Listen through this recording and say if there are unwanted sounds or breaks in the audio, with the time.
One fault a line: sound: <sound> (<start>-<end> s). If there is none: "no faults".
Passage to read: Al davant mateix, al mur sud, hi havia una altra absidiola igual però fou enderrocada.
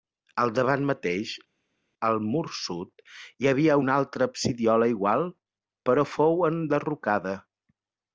no faults